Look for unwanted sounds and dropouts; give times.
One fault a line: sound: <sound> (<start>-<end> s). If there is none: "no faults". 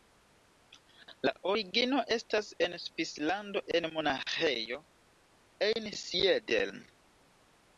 no faults